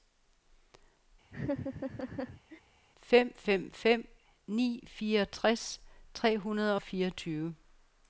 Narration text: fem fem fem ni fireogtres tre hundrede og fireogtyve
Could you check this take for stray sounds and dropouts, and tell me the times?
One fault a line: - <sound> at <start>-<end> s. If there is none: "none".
- laugh at 1.3-2.6 s